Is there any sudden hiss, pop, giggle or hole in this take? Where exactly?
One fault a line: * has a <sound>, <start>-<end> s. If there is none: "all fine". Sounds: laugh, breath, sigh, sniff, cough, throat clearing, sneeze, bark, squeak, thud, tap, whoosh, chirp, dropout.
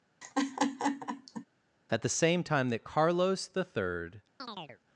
* has a laugh, 0.2-1.5 s
* has a chirp, 4.4-4.8 s